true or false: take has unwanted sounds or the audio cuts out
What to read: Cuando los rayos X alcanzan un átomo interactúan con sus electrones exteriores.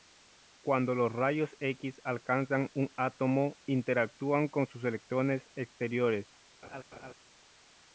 true